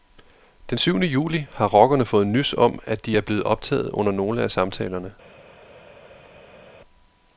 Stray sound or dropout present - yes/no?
no